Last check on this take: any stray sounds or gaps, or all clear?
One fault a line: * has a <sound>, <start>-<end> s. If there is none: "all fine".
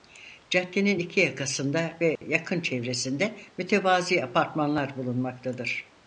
* has a dropout, 2.2-2.2 s